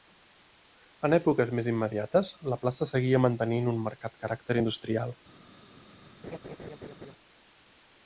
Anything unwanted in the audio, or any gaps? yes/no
yes